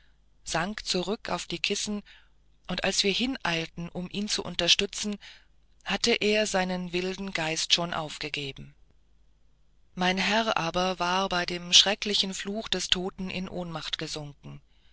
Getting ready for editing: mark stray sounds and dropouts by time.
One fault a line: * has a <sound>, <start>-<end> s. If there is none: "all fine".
all fine